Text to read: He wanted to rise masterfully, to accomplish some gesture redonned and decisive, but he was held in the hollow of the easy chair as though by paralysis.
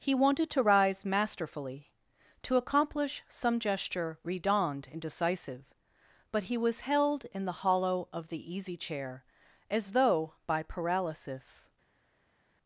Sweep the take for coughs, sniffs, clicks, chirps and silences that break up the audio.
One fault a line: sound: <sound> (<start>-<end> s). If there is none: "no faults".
no faults